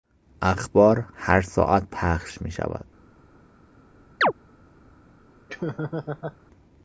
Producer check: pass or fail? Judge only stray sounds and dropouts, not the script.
fail